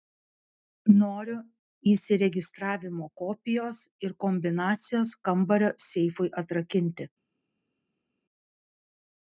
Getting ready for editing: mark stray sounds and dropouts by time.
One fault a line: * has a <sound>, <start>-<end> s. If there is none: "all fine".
all fine